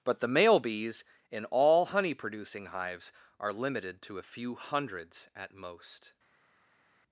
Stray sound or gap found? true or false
false